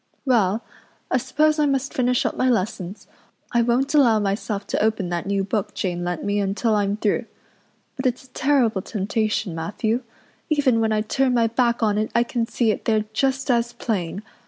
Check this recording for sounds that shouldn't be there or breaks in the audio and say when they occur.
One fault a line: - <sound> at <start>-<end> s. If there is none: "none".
none